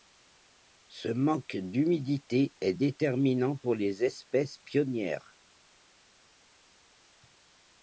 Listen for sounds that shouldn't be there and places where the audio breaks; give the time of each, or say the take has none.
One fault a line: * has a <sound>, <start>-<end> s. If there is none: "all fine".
all fine